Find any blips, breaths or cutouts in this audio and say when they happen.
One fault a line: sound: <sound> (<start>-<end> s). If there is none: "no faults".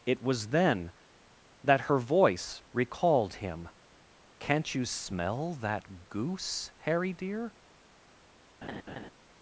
sound: laugh (8.6-9.1 s)